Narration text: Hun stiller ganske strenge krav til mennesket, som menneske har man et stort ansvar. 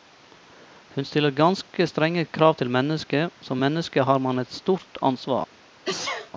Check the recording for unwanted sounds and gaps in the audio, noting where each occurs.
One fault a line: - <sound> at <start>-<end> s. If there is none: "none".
- sneeze at 5.8-6.3 s